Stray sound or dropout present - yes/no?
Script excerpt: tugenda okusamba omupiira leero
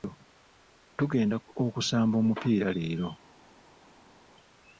no